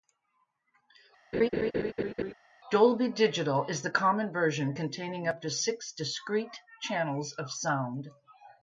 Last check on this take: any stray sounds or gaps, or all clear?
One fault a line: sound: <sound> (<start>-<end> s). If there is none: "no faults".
sound: laugh (1.3-2.3 s)